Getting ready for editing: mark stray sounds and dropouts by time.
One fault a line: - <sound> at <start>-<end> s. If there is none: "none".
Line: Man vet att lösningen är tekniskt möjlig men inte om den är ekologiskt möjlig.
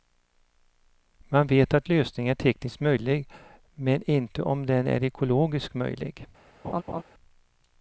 - laugh at 6.6-7.0 s